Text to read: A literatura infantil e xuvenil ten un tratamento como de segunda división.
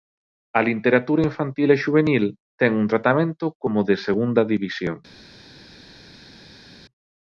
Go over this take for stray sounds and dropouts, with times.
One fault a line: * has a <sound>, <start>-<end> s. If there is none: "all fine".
all fine